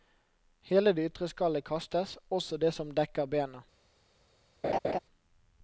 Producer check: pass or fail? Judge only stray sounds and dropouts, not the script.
fail